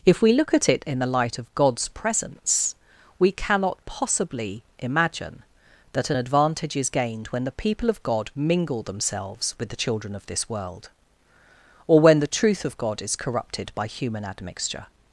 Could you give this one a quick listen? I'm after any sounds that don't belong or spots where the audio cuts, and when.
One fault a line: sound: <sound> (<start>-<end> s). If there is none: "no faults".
no faults